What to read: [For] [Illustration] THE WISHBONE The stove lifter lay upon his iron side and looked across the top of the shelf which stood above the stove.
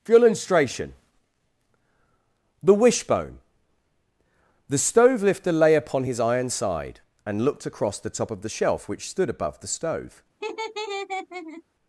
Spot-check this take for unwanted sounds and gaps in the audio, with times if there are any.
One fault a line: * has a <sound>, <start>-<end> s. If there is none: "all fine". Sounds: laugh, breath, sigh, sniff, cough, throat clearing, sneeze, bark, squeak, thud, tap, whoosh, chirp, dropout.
* has a laugh, 10.4-11.6 s